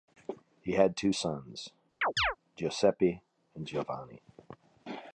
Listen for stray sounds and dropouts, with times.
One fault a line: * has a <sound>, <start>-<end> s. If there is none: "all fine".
* has a chirp, 2.0-2.4 s